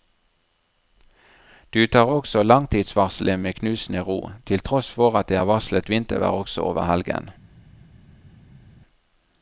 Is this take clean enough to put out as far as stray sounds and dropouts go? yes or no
yes